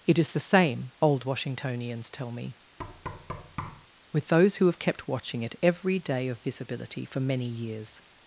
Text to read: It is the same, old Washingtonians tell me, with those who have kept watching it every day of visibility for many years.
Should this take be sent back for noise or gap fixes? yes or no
yes